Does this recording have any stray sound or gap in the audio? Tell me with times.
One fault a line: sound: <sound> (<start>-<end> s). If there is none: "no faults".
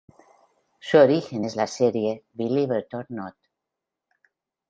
no faults